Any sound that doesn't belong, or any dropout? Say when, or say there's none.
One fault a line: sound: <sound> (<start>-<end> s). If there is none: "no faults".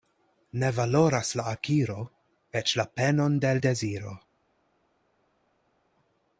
no faults